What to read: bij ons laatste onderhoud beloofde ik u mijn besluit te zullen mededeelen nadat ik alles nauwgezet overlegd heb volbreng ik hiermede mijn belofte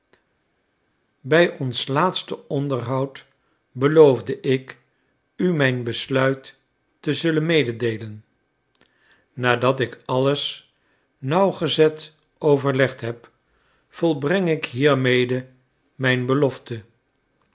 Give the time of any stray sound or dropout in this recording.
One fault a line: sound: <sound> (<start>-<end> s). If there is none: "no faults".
no faults